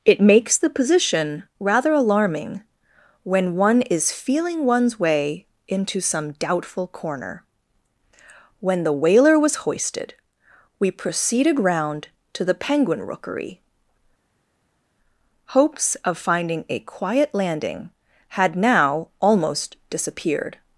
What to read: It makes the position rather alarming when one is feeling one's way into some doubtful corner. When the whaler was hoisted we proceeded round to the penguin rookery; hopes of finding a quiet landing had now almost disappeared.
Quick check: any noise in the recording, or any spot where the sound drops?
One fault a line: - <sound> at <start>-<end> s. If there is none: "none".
none